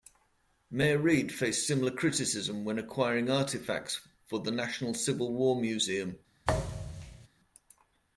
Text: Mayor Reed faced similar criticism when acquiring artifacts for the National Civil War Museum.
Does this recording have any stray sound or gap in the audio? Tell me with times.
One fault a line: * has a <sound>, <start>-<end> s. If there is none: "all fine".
* has a thud, 6.4-7.3 s